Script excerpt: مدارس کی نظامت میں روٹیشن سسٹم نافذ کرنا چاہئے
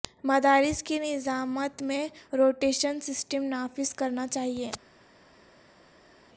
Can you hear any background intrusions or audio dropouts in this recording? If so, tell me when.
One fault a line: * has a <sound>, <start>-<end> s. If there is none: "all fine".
all fine